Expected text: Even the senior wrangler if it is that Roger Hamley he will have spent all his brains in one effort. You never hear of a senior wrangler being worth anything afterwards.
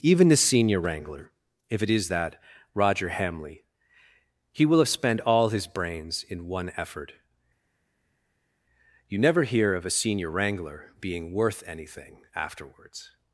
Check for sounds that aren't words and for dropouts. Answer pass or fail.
pass